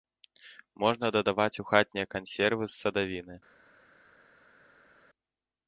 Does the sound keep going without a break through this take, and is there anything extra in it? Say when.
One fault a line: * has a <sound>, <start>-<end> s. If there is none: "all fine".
all fine